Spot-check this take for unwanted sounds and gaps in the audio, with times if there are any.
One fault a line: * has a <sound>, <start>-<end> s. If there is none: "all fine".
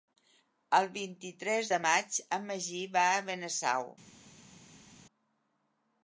all fine